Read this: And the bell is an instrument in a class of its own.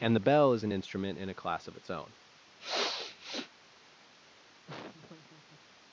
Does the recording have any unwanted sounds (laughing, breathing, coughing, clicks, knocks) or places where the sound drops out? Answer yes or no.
yes